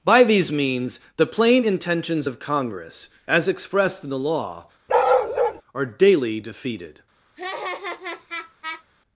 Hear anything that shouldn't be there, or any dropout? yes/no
yes